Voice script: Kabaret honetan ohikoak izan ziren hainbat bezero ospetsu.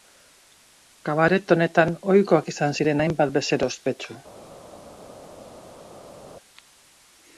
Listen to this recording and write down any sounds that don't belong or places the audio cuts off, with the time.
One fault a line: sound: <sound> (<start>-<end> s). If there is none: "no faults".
no faults